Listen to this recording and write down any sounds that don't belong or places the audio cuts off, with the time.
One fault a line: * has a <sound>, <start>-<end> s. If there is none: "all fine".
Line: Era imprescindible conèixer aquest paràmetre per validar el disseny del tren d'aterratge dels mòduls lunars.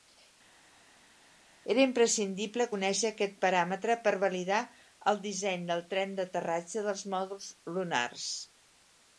all fine